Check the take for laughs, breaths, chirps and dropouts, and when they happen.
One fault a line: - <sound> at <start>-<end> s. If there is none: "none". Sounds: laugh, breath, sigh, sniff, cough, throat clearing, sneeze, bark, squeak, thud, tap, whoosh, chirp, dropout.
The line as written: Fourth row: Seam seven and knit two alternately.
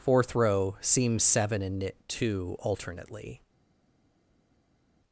none